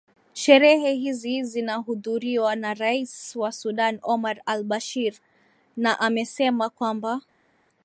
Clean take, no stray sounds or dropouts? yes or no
yes